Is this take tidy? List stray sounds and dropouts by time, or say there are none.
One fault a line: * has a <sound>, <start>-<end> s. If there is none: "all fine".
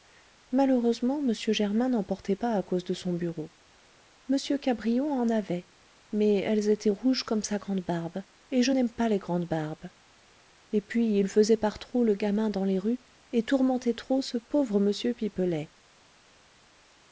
all fine